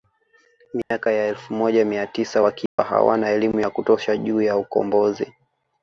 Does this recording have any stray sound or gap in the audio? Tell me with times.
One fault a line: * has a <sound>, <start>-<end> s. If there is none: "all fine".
* has a dropout, 0.8-0.9 s
* has a dropout, 2.7-2.8 s